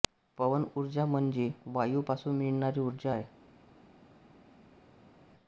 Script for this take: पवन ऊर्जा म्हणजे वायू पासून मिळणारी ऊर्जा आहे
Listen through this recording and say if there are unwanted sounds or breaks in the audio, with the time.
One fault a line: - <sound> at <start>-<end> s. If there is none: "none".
none